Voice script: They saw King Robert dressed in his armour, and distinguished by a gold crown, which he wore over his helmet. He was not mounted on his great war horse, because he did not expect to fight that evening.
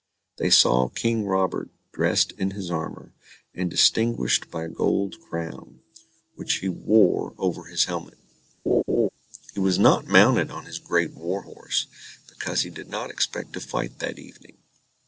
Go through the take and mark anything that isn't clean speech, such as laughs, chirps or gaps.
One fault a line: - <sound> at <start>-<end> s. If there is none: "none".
- laugh at 8.7-9.1 s